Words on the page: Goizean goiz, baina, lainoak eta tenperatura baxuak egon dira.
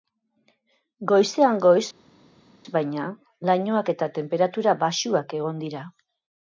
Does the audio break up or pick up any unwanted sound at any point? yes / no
no